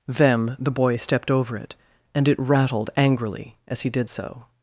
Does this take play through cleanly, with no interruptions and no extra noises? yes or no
yes